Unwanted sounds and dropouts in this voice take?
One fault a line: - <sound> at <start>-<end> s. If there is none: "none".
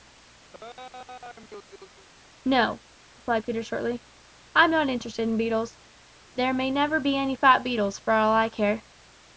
- laugh at 0.5-2.1 s